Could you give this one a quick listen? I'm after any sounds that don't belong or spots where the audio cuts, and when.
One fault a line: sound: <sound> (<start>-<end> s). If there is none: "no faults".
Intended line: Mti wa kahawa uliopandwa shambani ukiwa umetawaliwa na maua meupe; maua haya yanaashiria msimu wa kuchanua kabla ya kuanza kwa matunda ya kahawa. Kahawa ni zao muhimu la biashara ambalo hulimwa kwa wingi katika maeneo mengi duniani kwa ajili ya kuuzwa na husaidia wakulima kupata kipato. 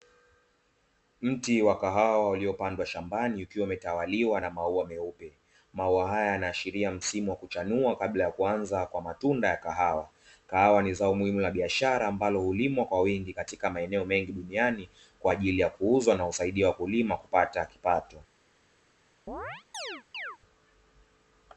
sound: chirp (19.3-20.4 s)